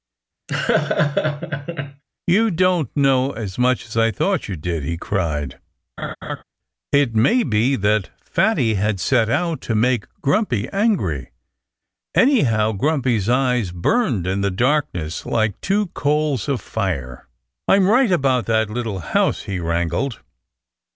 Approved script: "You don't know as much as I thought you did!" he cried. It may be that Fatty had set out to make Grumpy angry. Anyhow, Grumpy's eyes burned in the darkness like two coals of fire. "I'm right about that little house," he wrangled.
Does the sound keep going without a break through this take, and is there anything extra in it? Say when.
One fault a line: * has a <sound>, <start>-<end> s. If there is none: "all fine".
* has a laugh, 0.5-2.0 s
* has a laugh, 6.0-6.4 s